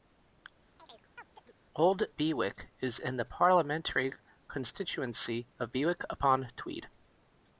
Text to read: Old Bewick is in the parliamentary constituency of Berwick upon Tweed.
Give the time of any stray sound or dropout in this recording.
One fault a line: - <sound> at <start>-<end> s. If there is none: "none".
- chirp at 0.8-1.5 s